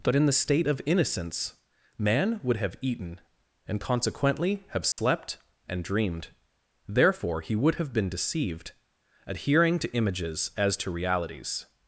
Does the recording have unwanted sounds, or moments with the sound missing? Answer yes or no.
yes